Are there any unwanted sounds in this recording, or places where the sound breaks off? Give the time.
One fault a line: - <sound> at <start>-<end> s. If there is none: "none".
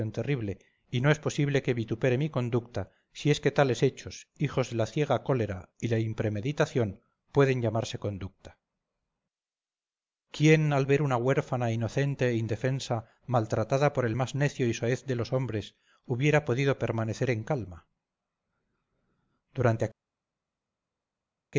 none